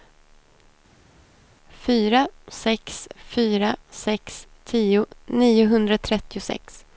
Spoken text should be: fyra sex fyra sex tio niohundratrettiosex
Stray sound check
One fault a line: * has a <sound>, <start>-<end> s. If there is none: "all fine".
all fine